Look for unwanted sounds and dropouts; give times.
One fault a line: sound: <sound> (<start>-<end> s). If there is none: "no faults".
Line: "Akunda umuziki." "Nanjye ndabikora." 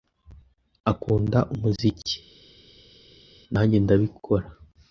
no faults